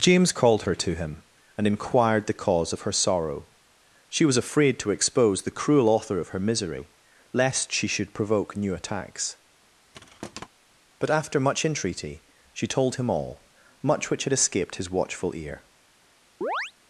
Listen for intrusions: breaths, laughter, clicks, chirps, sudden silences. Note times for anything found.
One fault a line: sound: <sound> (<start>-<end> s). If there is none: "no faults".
sound: thud (9.9-10.5 s)
sound: chirp (16.4-16.7 s)